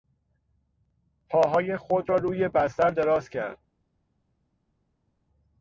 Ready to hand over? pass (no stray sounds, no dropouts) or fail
pass